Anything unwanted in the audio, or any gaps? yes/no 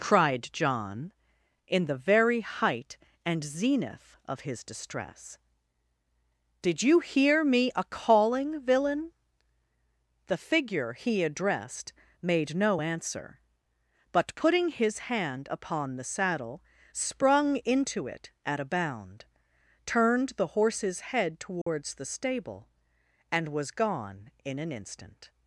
yes